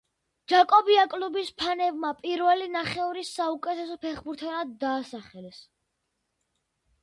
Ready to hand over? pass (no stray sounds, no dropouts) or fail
pass